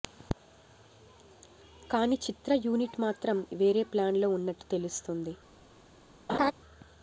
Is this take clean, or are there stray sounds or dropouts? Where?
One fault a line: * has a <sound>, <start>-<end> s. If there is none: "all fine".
* has a laugh, 6.3-6.5 s